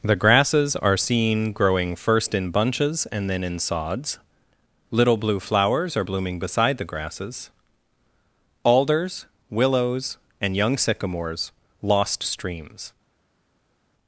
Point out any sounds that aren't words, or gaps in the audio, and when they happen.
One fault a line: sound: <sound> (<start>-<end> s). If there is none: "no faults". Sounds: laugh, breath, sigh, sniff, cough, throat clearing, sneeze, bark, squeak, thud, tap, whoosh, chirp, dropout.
no faults